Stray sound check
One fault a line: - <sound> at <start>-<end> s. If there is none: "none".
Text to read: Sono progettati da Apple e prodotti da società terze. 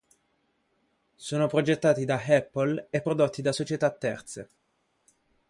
none